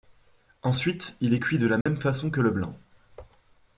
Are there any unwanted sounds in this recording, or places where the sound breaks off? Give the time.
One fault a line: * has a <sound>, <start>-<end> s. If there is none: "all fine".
* has a dropout, 1.8-1.9 s